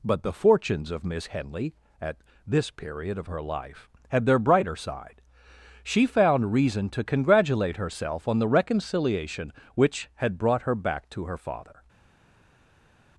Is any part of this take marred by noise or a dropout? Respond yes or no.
no